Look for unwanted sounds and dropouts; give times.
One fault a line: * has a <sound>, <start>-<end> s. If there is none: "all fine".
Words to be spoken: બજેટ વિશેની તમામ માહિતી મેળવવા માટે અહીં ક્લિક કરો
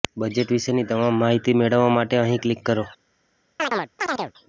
* has a chirp, 3.6-4.3 s